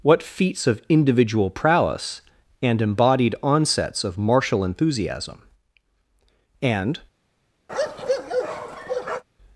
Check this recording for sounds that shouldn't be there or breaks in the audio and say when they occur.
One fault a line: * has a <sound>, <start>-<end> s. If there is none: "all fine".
* has a bark, 7.7-9.2 s